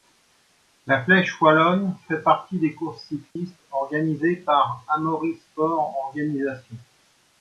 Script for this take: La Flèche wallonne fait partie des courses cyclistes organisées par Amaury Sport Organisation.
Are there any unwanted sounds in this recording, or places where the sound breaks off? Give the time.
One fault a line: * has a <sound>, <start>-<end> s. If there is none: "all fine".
* has a dropout, 3.3-3.4 s